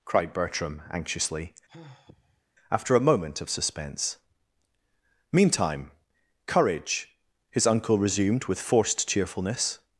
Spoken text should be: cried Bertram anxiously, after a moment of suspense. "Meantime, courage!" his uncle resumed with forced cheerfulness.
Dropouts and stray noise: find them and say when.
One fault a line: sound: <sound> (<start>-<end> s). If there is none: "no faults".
sound: sigh (1.7-2.4 s)